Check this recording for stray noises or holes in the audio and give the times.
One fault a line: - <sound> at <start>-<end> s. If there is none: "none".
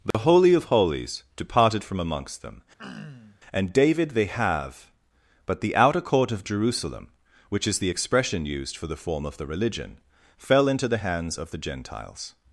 - dropout at 0.1-0.1 s
- throat clearing at 2.8-3.4 s